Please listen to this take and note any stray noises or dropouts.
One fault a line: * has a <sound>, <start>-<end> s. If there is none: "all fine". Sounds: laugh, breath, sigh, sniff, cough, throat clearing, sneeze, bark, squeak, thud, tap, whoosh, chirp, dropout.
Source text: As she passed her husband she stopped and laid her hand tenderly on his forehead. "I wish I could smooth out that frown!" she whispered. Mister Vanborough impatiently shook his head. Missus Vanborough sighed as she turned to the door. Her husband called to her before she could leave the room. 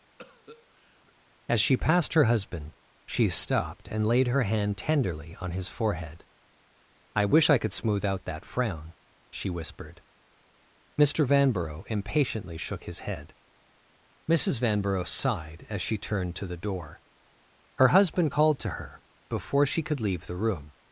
* has a cough, 0.2-1.1 s